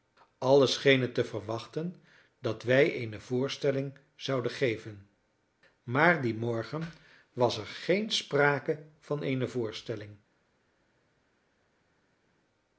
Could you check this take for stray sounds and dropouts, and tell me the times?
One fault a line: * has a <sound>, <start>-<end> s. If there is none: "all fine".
all fine